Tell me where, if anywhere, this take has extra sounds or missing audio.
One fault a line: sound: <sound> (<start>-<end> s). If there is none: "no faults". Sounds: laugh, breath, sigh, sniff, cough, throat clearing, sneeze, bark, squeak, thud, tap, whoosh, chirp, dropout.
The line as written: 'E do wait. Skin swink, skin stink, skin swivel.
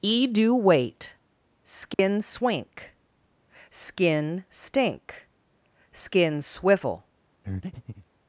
sound: dropout (1.9-2.0 s)
sound: breath (7.4-8.1 s)